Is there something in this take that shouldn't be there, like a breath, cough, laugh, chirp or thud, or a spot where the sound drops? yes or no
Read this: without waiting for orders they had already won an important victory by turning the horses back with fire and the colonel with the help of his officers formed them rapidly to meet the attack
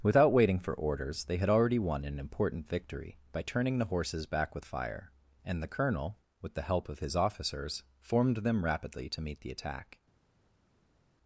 no